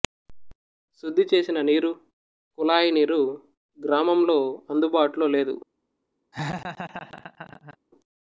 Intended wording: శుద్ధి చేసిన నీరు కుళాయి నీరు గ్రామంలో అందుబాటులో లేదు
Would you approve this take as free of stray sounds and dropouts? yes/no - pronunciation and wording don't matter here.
no